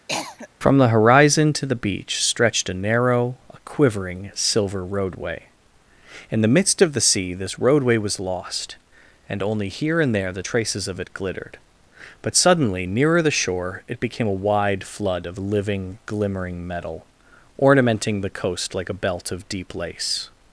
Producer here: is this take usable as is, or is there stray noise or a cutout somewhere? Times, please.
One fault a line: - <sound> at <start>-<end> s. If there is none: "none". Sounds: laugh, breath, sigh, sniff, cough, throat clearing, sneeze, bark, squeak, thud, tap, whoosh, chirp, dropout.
- cough at 0.1-0.5 s